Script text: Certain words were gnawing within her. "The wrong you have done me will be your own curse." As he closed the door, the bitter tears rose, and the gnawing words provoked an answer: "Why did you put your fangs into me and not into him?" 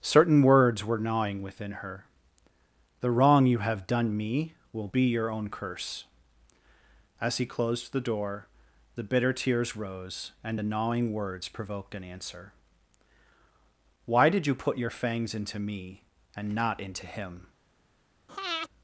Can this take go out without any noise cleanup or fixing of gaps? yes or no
no